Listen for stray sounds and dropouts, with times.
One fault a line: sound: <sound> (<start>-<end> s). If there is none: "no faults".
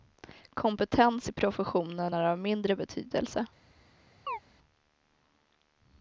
sound: chirp (4.3-4.4 s)